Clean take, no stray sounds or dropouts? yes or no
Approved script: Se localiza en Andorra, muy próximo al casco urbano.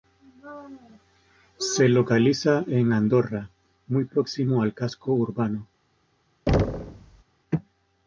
no